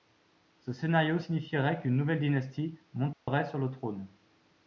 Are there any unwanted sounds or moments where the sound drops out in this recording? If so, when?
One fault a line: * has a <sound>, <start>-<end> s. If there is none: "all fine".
* has a dropout, 3.1-3.3 s